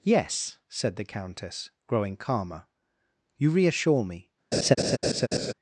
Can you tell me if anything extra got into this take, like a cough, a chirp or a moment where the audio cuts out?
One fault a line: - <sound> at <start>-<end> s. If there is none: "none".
- laugh at 4.5-5.5 s